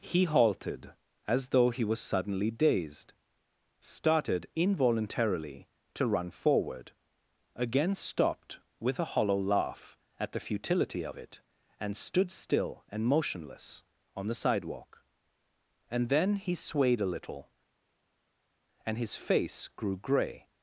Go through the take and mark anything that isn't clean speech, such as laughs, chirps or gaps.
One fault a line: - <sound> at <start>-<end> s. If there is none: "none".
none